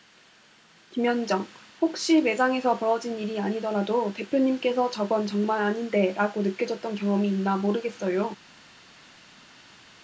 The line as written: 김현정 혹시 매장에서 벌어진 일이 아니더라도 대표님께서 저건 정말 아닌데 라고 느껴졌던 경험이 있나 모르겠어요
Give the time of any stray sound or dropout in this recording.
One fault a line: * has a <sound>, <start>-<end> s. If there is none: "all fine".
all fine